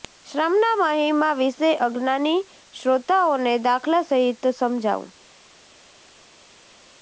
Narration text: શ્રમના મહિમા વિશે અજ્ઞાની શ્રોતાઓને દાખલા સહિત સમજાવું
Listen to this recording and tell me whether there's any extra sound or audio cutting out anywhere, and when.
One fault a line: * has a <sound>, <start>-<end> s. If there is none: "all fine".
all fine